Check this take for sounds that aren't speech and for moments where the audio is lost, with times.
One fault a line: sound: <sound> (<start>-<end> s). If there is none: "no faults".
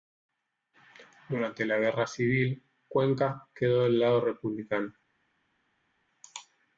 no faults